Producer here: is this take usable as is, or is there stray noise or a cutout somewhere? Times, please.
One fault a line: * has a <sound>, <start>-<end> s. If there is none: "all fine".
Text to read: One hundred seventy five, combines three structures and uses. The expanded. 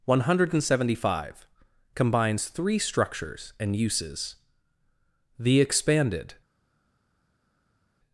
all fine